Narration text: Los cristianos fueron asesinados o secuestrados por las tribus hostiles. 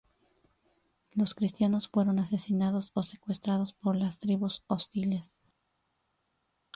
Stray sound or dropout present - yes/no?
no